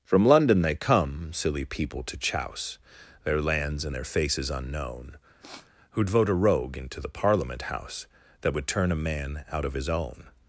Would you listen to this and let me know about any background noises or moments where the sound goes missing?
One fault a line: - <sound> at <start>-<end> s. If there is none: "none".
- sniff at 5.4-5.7 s